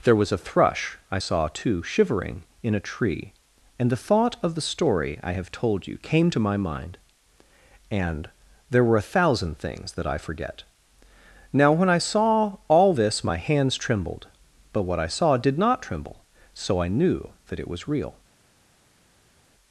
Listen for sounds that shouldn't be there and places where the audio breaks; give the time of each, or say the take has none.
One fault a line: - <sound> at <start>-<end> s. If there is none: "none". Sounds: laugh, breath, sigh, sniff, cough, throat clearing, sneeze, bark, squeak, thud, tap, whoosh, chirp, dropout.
none